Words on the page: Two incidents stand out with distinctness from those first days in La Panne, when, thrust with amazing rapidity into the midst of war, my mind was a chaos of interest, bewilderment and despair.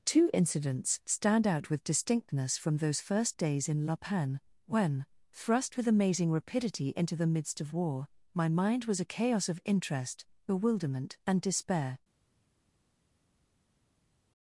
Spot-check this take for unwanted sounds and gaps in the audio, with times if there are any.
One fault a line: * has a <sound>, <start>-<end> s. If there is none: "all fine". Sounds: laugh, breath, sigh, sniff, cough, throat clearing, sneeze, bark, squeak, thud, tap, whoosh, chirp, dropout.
all fine